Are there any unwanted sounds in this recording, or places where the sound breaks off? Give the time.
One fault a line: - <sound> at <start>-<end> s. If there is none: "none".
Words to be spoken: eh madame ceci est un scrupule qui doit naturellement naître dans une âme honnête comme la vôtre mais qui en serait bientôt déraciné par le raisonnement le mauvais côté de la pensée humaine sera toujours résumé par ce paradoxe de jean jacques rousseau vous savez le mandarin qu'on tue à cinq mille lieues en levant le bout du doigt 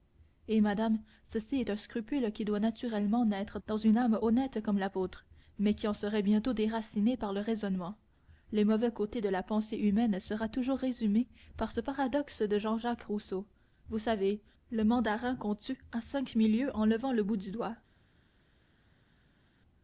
none